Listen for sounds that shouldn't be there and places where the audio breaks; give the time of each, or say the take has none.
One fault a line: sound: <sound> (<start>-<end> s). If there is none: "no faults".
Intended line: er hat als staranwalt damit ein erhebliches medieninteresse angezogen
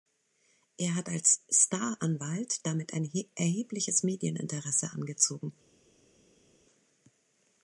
no faults